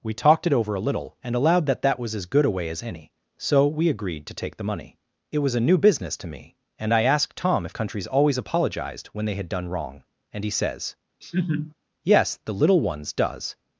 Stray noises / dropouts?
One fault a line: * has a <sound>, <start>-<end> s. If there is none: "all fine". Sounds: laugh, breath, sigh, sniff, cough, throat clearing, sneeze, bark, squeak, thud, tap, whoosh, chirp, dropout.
* has a laugh, 11.2-11.7 s